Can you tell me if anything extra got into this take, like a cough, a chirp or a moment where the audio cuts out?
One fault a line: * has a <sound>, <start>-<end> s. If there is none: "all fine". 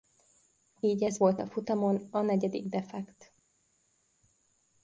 all fine